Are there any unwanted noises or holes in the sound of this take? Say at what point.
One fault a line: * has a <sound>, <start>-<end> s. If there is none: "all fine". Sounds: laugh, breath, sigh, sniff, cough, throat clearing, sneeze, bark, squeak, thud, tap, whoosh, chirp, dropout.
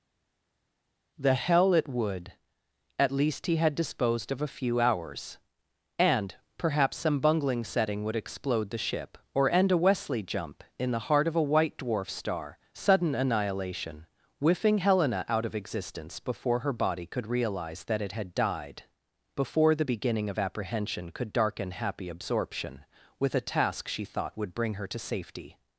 all fine